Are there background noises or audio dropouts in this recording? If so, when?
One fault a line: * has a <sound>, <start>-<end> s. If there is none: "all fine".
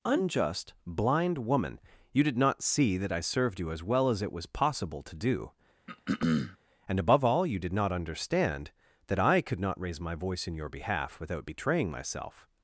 * has a throat clearing, 5.9-6.6 s